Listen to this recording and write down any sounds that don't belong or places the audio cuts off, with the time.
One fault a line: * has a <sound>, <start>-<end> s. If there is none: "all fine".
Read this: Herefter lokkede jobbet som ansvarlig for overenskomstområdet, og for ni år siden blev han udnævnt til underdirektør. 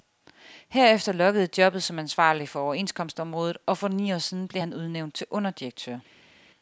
all fine